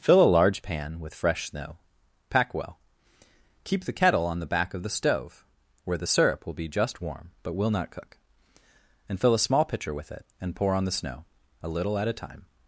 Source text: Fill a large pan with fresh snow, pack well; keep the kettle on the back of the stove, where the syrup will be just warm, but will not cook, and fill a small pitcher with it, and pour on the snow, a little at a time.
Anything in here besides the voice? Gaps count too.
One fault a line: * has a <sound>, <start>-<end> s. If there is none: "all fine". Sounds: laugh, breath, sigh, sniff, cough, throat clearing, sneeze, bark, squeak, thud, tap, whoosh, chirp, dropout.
all fine